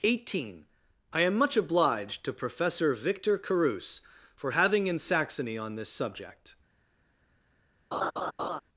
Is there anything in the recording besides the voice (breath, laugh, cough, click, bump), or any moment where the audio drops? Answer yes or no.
yes